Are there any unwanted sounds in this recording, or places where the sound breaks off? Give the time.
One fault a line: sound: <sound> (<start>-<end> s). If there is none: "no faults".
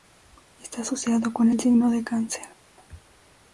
no faults